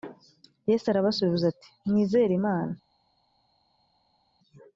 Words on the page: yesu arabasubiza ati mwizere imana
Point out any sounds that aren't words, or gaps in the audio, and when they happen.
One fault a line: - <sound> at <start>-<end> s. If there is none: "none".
none